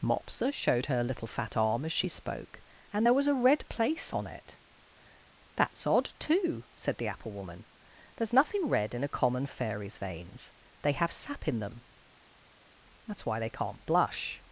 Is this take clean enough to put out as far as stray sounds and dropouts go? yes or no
yes